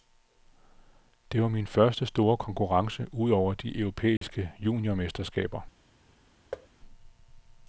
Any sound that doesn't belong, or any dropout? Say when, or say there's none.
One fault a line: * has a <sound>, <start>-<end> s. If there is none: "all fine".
* has a dropout, 4.2-4.2 s
* has a thud, 6.5-6.7 s